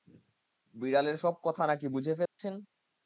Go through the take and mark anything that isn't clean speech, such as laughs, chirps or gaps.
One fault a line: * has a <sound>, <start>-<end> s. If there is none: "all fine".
* has a dropout, 2.3-2.4 s